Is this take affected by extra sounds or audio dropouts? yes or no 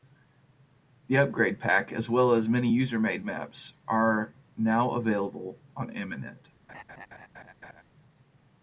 yes